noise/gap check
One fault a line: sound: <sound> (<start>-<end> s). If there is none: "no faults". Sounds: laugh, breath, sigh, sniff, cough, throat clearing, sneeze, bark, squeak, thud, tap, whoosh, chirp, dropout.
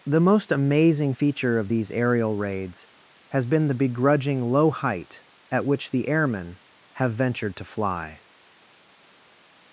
no faults